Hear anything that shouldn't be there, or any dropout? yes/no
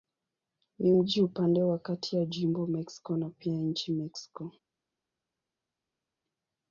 no